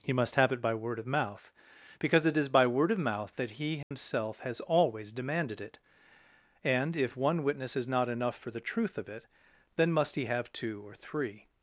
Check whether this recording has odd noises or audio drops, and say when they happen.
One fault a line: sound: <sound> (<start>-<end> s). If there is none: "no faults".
sound: dropout (3.8-3.9 s)